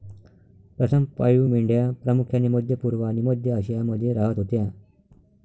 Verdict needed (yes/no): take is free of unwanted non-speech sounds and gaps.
yes